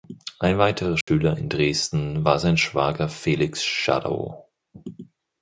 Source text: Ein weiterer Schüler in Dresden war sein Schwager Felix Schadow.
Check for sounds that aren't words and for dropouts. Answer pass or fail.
fail